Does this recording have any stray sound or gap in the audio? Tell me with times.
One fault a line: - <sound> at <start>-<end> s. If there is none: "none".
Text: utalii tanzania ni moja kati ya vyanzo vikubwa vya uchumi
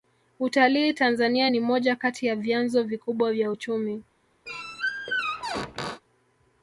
- squeak at 4.5-6.0 s